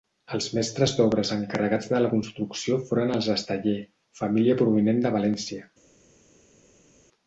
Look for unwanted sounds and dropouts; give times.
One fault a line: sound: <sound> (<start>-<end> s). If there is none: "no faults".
no faults